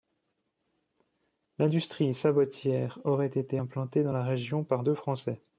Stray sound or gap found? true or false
false